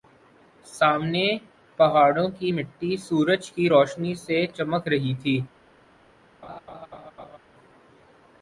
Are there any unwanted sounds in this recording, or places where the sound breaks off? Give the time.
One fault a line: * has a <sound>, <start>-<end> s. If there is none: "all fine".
* has a laugh, 6.4-7.4 s